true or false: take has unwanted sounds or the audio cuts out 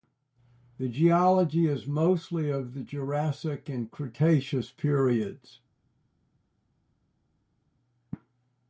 false